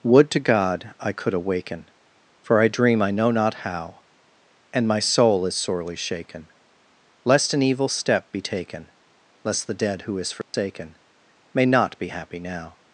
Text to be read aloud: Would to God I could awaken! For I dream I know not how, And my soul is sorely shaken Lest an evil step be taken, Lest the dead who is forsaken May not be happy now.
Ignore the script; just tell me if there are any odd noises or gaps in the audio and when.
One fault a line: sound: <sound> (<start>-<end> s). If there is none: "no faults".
sound: dropout (10.4-10.5 s)